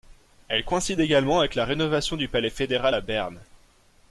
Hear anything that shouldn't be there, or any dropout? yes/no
no